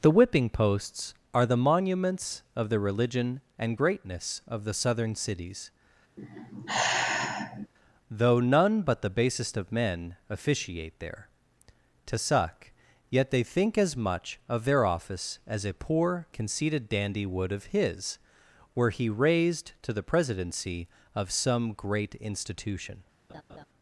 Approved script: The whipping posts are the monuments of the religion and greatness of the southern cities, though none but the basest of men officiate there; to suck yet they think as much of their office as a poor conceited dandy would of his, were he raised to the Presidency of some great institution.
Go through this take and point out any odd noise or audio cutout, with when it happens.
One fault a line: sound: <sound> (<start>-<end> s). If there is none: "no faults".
sound: sigh (6.2-7.7 s)
sound: laugh (23.3-23.7 s)